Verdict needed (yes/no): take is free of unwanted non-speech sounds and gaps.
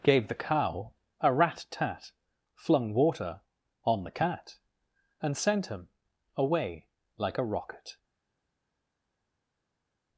yes